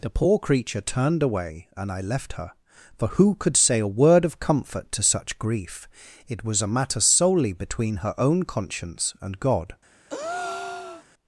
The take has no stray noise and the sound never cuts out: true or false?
false